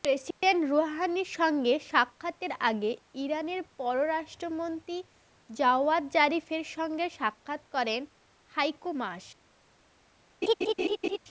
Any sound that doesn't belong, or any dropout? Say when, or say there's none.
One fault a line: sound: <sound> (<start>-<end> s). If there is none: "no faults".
sound: dropout (0.3-0.4 s)
sound: laugh (10.4-11.2 s)